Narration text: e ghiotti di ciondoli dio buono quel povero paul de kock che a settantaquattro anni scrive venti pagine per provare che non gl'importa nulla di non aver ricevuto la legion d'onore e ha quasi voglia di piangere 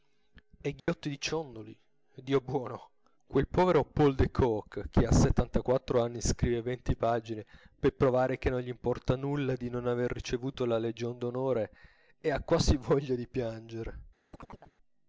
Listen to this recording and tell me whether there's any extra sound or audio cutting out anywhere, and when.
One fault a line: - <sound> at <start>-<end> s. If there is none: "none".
- dropout at 0.8-0.9 s
- chirp at 14.3-14.7 s